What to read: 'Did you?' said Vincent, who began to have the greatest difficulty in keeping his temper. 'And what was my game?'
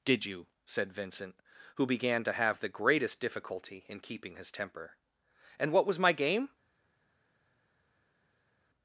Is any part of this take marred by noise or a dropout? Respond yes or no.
no